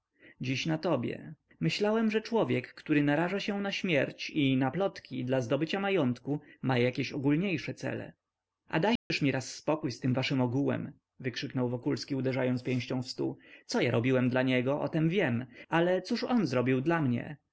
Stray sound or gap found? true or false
true